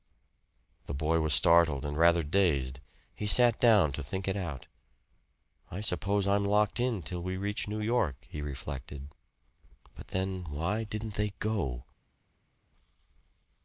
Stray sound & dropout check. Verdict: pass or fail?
pass